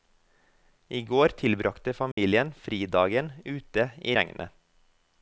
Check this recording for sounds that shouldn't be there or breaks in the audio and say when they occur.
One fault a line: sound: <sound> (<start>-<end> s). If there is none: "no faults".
sound: dropout (2.1-2.2 s)